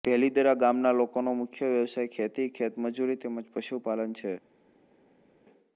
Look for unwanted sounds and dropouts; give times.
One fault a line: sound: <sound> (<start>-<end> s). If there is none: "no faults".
no faults